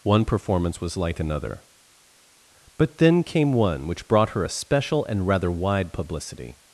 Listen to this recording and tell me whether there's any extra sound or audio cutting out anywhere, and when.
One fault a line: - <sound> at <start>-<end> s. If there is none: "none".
none